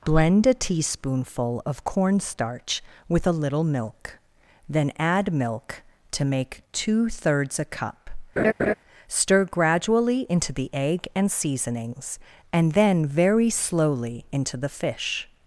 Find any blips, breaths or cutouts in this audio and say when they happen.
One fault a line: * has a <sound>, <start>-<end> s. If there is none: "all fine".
* has a laugh, 8.4-8.7 s